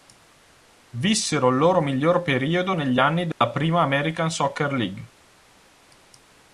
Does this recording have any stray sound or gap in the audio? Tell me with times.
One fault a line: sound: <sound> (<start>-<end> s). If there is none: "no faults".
sound: dropout (3.3-3.4 s)